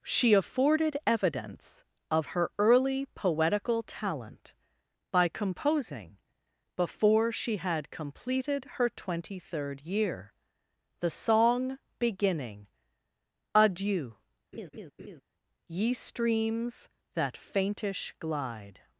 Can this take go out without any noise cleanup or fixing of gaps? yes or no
no